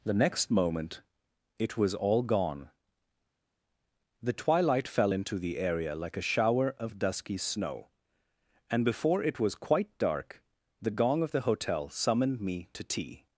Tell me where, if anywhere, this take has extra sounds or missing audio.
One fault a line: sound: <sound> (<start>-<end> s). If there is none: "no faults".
no faults